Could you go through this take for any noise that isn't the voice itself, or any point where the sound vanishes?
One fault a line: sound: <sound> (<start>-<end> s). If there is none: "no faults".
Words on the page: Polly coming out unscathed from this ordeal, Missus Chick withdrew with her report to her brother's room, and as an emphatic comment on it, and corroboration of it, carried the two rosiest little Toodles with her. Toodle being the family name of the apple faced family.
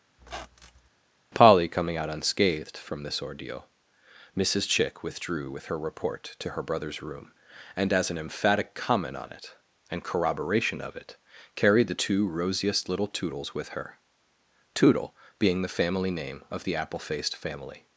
sound: squeak (0.2-0.9 s)